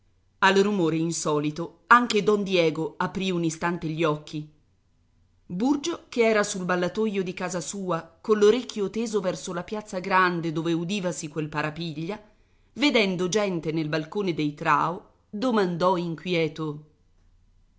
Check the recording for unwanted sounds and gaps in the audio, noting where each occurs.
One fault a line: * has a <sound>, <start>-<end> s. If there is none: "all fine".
all fine